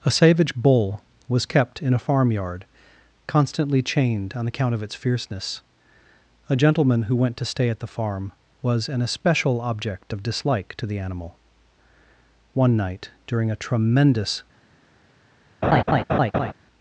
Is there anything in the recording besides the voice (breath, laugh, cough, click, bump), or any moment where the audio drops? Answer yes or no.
yes